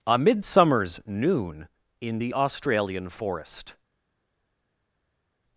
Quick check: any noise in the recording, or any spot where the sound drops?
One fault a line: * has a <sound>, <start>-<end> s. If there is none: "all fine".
all fine